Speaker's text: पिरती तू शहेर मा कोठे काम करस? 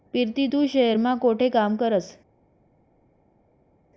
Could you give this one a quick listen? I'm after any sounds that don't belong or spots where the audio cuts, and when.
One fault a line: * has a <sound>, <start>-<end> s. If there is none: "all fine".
all fine